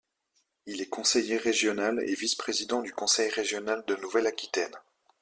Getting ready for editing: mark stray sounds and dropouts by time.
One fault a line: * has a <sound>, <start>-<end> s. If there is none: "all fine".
all fine